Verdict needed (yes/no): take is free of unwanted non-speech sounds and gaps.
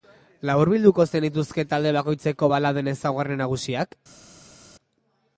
yes